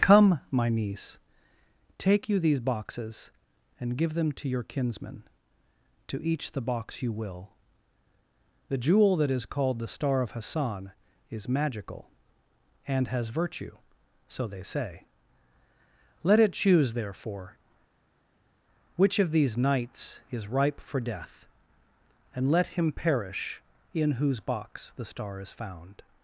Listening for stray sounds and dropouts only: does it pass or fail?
pass